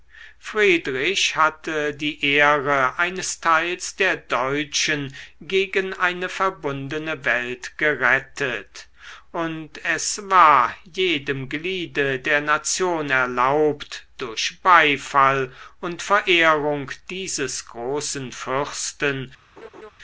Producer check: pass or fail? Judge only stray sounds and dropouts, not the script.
fail